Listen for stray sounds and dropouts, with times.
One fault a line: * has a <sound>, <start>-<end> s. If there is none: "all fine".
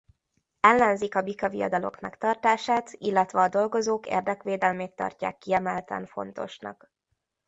all fine